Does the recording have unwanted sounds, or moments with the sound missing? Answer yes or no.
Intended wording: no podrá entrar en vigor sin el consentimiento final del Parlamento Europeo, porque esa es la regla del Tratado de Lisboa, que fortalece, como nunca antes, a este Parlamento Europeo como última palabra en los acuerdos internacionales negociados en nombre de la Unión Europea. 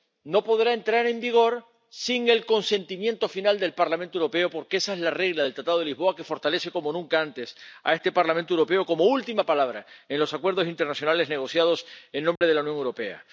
yes